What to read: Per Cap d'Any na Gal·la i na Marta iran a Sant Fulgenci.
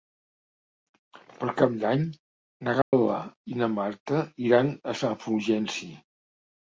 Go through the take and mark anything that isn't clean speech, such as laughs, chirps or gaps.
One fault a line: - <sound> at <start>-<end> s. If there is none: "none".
- dropout at 2.8-2.9 s